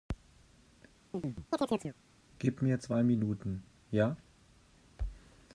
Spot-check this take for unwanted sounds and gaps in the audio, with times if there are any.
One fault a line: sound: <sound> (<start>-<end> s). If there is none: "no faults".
sound: chirp (1.1-2.0 s)